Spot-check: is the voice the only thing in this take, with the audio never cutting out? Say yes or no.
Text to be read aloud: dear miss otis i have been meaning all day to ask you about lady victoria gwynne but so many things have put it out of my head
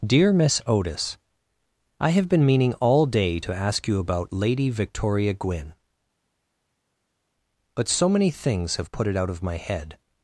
yes